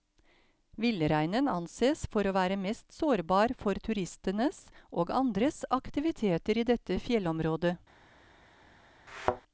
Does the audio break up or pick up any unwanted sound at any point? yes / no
yes